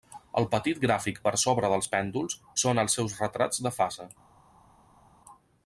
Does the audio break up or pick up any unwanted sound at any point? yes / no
no